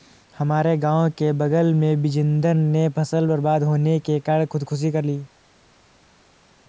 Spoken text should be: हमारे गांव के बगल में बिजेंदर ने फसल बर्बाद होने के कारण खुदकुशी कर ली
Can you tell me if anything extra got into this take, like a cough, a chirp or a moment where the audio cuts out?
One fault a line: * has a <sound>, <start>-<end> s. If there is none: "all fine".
all fine